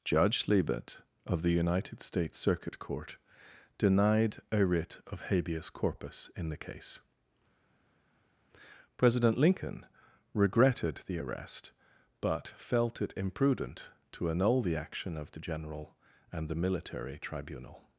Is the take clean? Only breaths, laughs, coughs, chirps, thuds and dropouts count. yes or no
yes